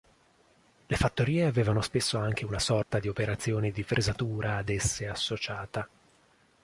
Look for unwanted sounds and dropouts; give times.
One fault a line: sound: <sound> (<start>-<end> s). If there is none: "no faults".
sound: dropout (2.8-2.9 s)